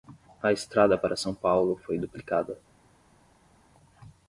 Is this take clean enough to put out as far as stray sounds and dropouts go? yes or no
yes